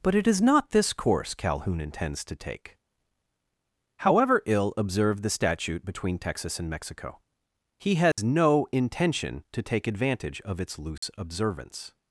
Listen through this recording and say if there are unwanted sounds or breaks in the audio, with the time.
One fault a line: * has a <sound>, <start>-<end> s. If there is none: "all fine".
* has a dropout, 8.1-8.2 s
* has a dropout, 11.0-11.0 s